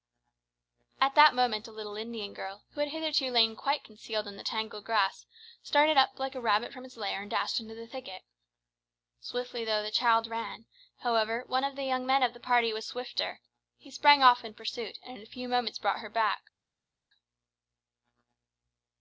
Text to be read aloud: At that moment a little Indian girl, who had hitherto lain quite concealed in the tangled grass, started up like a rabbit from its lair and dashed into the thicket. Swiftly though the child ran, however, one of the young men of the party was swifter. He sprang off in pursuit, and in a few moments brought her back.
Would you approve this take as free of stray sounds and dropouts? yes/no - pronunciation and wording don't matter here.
yes